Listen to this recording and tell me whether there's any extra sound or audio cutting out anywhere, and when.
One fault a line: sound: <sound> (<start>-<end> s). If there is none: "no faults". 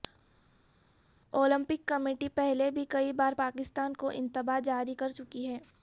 no faults